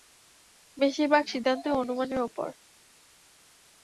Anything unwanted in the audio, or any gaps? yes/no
no